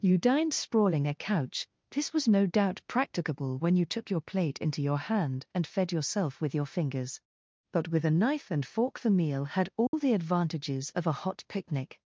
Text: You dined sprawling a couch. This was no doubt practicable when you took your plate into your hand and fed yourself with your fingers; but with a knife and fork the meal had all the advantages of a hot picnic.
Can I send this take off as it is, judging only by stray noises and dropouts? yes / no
no